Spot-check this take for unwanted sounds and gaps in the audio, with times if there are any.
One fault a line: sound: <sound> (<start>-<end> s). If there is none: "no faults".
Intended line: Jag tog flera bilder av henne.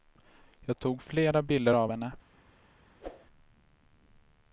sound: whoosh (3.0-3.3 s)